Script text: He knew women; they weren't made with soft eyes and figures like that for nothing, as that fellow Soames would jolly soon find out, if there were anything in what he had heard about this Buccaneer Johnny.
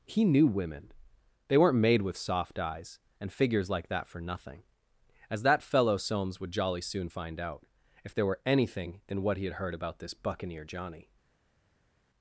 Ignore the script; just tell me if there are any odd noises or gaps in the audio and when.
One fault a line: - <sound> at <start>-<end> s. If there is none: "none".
none